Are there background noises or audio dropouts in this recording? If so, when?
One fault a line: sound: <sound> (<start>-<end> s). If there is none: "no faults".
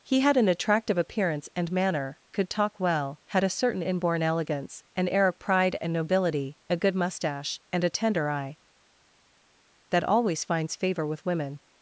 no faults